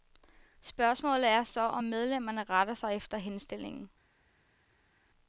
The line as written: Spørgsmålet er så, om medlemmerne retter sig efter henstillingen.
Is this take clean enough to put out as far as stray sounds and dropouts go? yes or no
yes